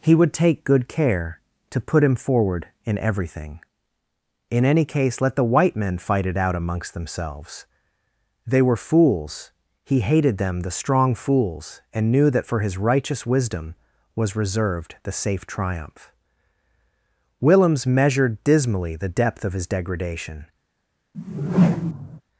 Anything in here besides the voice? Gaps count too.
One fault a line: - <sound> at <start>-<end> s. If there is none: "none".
- whoosh at 21.1-22.2 s